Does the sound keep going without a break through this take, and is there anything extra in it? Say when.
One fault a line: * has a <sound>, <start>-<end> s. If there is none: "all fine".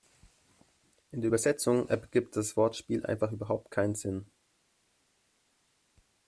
all fine